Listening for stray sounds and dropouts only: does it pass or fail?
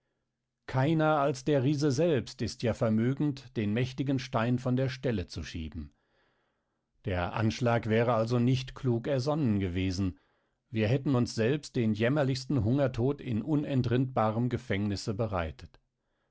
pass